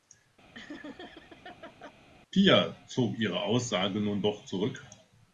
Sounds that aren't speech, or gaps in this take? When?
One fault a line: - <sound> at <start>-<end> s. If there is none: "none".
- laugh at 0.5-1.9 s